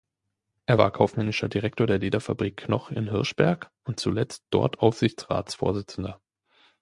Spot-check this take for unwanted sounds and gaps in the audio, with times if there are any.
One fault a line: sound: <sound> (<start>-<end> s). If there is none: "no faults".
no faults